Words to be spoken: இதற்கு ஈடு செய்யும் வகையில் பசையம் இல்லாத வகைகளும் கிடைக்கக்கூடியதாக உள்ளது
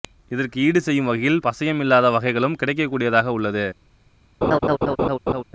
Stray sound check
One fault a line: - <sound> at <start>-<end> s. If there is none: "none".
- laugh at 4.4-5.4 s